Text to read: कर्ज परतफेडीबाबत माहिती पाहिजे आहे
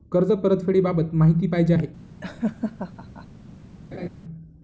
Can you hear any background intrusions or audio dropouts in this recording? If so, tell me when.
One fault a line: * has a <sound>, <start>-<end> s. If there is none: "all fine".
* has a laugh, 2.2-3.3 s
* has a laugh, 3.9-4.1 s